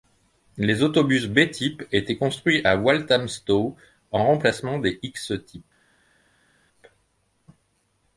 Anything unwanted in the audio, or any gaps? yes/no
no